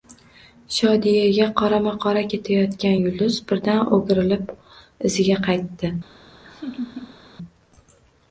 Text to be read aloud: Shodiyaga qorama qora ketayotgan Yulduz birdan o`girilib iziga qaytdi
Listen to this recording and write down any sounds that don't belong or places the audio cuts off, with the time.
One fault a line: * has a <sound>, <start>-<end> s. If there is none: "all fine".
* has a laugh, 6.4-7.2 s